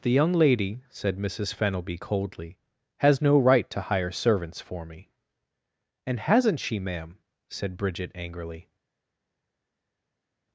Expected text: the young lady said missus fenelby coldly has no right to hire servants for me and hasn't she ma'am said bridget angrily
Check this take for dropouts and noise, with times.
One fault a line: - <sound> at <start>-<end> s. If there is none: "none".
none